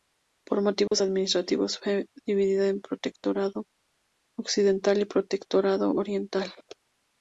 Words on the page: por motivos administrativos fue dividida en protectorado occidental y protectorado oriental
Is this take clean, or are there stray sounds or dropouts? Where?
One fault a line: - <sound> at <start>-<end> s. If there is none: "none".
- dropout at 0.9-0.9 s